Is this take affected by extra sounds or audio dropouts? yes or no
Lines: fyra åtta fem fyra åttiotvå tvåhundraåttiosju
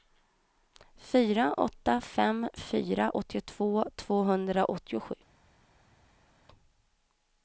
no